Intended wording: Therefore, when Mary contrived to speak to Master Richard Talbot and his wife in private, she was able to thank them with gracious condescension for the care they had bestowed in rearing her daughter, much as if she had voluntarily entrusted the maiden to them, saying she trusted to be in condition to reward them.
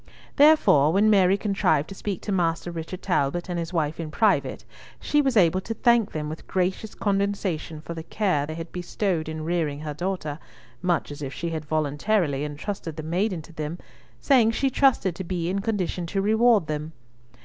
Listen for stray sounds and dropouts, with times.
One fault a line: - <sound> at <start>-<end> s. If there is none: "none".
none